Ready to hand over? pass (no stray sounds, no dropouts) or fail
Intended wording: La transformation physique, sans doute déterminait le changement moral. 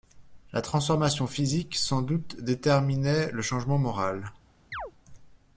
fail